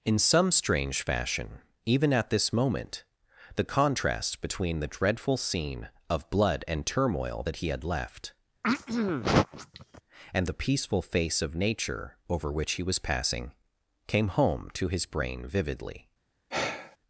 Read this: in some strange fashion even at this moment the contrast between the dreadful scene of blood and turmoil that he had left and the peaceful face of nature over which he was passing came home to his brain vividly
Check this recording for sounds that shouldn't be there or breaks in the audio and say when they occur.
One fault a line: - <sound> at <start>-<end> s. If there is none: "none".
- throat clearing at 8.6-10.0 s
- sigh at 16.5-17.0 s